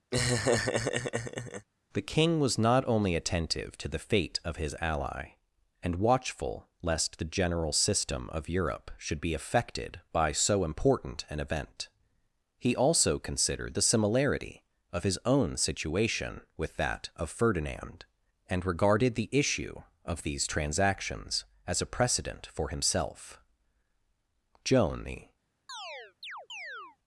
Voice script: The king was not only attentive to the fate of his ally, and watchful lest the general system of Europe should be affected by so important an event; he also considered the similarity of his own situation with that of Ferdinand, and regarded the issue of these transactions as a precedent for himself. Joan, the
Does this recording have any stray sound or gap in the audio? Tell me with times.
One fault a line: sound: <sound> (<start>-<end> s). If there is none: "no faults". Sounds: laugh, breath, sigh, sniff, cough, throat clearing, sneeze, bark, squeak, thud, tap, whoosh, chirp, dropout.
sound: laugh (0.1-1.7 s)
sound: chirp (25.7-27.0 s)